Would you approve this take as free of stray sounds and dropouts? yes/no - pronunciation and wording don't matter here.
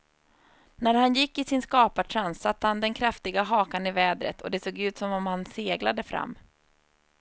yes